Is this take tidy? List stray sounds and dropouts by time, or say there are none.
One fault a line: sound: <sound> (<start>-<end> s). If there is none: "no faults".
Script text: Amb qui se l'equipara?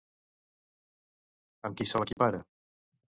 sound: dropout (2.1-2.2 s)